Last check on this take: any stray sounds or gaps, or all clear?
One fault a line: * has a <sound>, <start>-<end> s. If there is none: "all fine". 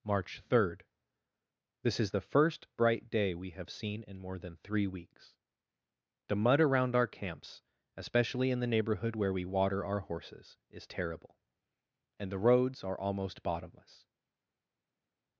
all fine